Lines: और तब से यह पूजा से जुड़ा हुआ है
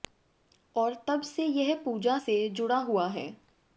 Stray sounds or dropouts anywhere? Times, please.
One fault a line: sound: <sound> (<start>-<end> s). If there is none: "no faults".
no faults